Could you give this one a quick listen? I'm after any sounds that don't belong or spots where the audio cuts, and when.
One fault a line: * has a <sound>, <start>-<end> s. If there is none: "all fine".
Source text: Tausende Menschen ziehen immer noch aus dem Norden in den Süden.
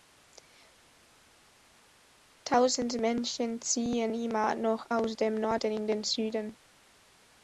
all fine